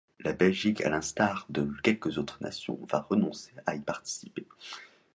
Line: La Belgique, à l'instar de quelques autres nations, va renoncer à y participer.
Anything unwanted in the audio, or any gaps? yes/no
no